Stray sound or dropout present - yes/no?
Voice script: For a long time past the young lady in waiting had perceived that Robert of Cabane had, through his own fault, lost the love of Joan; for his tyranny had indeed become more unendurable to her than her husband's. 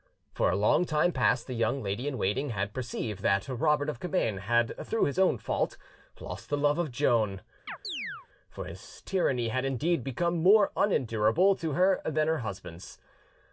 yes